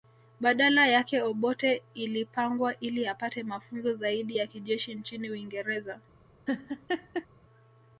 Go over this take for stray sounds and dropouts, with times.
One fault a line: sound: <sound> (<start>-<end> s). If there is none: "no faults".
sound: laugh (6.5-7.3 s)